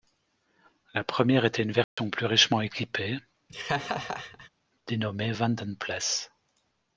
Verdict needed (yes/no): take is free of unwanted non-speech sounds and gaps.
no